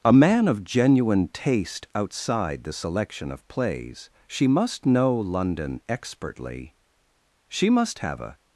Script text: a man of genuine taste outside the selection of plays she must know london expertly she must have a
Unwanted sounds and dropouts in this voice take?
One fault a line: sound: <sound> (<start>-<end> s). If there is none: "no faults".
no faults